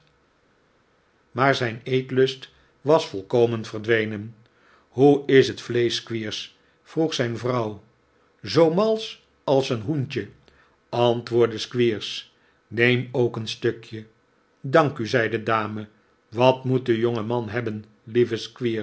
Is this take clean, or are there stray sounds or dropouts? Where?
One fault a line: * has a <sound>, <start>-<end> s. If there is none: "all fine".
all fine